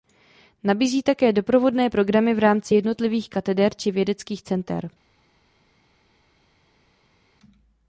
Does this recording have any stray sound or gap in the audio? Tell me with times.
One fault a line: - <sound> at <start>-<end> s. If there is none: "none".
none